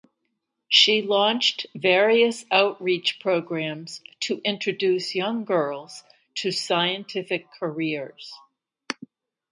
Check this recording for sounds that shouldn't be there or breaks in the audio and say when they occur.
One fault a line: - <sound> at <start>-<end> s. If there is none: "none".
none